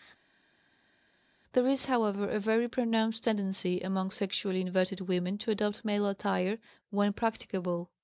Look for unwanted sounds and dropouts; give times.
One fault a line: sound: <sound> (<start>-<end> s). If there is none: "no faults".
no faults